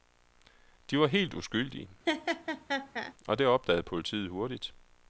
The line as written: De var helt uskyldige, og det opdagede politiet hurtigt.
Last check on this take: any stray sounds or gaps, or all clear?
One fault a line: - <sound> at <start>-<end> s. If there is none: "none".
- laugh at 2.1-3.1 s